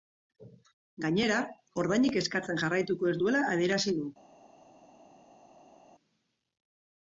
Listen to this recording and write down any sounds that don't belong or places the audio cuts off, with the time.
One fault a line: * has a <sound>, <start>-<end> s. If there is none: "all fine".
all fine